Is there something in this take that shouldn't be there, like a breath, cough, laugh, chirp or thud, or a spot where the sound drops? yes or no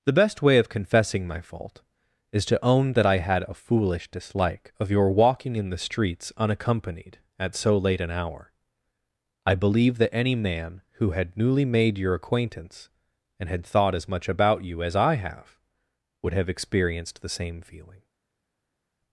no